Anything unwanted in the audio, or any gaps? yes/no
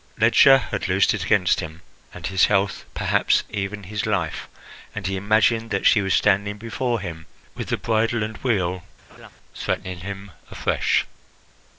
yes